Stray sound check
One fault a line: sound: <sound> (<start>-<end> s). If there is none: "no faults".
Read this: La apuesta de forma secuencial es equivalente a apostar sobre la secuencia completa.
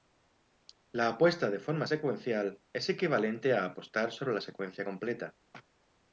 no faults